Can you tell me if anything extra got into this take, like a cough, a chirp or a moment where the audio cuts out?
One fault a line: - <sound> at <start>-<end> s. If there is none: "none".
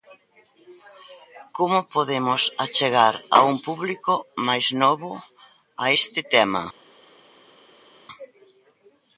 none